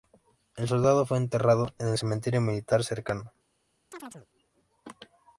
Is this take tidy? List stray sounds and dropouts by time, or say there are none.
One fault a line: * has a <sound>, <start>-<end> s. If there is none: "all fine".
* has a chirp, 3.9-4.3 s